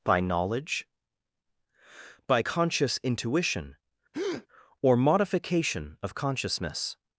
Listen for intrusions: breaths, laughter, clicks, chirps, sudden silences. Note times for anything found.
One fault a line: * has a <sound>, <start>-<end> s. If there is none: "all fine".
* has a breath, 4.1-4.5 s